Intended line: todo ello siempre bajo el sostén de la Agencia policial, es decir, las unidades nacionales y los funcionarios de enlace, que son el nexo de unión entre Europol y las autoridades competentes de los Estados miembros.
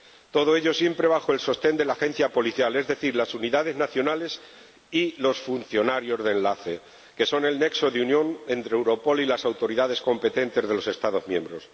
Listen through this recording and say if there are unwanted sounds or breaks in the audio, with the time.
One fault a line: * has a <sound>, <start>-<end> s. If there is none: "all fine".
all fine